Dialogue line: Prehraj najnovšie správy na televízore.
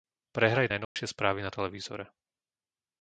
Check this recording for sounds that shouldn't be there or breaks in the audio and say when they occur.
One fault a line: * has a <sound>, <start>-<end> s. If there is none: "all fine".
* has a dropout, 0.8-1.0 s